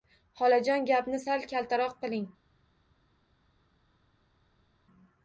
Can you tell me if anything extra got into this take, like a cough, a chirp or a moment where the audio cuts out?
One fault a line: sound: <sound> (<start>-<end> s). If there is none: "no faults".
no faults